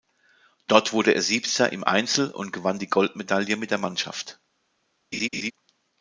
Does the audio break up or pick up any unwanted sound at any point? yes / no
yes